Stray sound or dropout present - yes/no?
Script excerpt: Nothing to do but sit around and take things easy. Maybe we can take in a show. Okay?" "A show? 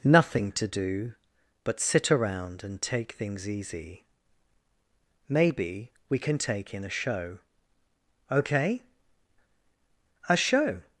no